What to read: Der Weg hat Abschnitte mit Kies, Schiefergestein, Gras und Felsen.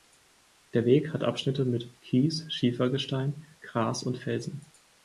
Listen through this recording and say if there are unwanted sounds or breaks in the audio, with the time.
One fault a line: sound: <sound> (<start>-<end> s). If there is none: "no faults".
no faults